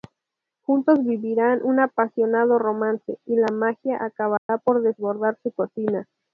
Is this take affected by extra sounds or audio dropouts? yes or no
yes